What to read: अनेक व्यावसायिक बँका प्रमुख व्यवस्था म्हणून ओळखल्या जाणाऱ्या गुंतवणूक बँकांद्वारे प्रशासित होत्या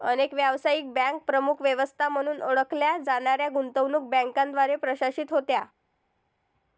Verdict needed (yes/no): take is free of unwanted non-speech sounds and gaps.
yes